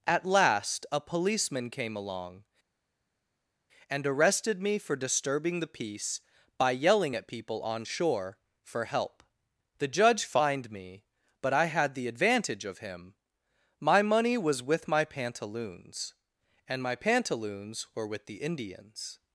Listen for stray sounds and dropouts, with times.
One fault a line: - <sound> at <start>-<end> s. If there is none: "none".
none